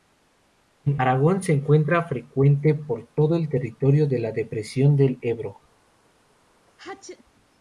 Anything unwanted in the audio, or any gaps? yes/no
yes